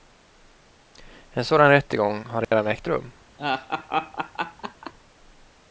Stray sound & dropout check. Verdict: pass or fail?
fail